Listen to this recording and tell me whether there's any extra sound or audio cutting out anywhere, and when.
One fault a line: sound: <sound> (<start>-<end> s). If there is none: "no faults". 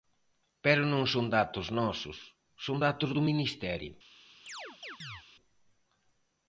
sound: chirp (4.5-5.2 s)